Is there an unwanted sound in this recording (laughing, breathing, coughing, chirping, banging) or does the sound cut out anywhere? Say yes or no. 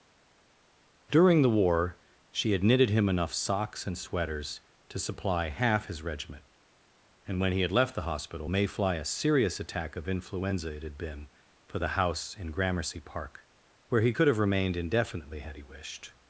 no